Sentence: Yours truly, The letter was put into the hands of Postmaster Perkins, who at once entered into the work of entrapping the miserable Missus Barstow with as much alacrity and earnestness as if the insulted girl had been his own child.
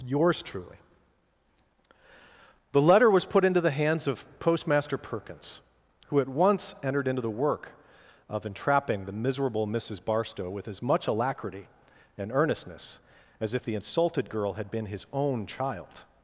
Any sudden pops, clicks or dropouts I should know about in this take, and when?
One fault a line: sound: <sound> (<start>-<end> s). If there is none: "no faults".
no faults